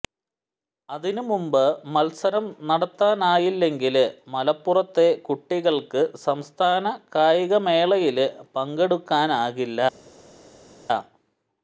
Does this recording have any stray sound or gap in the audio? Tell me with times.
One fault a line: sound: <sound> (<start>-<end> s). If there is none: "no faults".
no faults